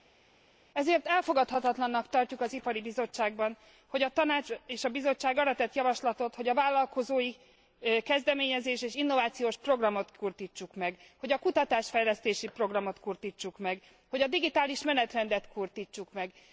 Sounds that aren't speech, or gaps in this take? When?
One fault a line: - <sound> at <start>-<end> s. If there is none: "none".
none